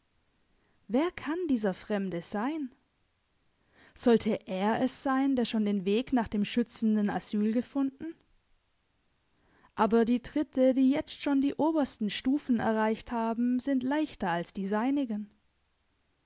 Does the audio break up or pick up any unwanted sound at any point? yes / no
no